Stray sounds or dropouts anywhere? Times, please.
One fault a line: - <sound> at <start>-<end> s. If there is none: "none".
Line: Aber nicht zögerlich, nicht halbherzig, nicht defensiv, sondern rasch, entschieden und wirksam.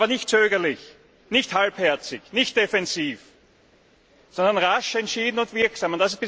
none